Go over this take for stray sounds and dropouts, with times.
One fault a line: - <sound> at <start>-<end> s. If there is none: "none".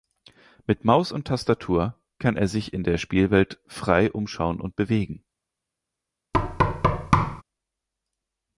- thud at 6.3-7.4 s